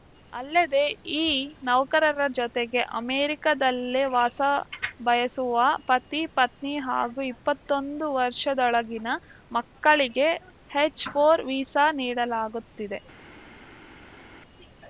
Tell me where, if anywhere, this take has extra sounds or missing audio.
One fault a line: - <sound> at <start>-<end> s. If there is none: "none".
none